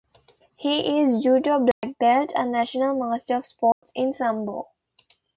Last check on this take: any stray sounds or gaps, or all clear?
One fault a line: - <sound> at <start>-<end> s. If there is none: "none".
- dropout at 1.7-1.8 s
- dropout at 3.7-3.8 s